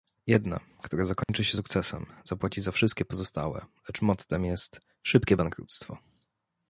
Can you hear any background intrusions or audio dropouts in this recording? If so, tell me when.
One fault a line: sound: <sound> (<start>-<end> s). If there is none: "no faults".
sound: dropout (1.2-1.3 s)